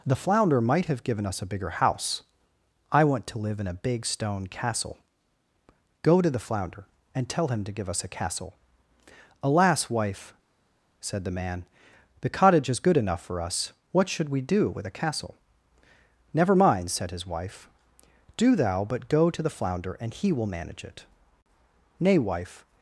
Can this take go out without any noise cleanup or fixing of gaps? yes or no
yes